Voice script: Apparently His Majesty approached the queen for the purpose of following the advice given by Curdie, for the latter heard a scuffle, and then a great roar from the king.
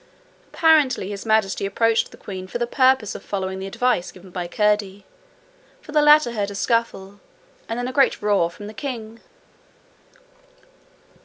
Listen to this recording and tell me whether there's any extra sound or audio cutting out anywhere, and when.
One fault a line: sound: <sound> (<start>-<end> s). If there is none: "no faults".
no faults